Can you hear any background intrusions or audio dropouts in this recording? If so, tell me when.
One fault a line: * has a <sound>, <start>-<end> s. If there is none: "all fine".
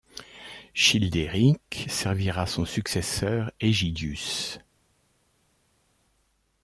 all fine